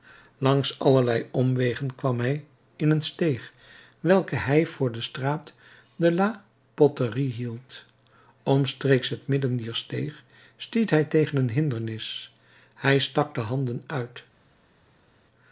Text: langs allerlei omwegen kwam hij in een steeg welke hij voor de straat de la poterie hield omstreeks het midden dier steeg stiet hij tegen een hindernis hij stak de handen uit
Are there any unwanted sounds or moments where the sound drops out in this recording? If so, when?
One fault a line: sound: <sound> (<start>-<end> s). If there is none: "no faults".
no faults